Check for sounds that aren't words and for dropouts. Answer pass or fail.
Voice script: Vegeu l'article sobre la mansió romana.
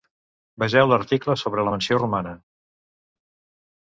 pass